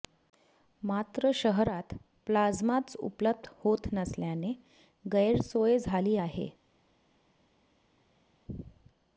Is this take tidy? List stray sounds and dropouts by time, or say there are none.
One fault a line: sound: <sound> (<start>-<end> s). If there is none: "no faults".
no faults